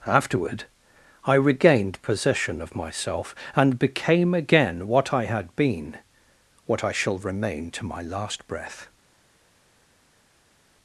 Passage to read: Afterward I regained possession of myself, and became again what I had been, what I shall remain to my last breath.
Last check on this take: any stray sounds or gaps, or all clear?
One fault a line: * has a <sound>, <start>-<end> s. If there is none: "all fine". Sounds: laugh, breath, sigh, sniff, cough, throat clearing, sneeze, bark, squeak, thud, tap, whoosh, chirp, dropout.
all fine